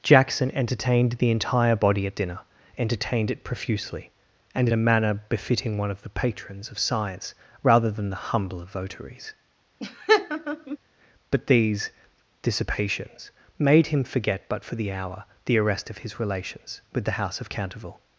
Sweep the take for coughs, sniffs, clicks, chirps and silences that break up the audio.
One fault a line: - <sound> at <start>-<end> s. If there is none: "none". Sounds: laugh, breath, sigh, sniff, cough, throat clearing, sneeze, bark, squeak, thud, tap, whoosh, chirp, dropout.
- laugh at 9.8-10.8 s